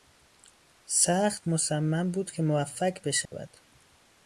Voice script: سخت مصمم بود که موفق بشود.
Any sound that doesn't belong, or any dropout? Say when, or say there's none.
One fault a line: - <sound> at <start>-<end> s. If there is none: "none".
- dropout at 3.3-3.3 s